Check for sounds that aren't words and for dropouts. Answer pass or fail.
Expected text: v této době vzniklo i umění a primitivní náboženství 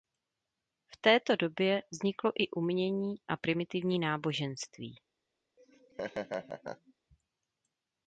fail